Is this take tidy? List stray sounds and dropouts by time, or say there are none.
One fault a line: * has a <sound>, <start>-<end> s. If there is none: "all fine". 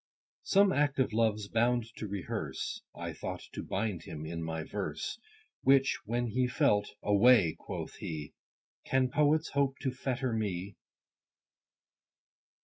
all fine